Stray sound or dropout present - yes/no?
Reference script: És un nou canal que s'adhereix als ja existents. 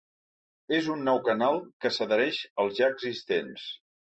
no